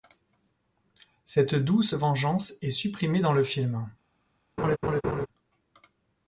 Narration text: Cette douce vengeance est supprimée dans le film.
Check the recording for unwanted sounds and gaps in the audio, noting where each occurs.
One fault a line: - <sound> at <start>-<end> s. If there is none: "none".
- laugh at 4.6-5.3 s